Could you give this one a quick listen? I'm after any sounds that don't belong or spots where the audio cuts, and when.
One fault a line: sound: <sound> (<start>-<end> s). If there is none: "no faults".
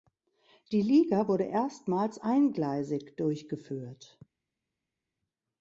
no faults